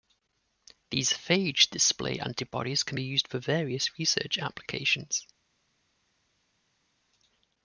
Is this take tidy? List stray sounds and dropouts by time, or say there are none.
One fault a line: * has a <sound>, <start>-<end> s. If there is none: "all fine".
all fine